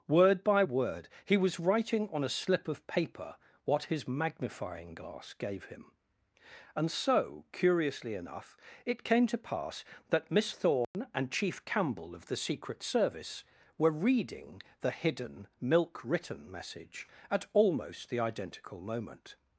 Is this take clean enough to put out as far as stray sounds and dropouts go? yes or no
no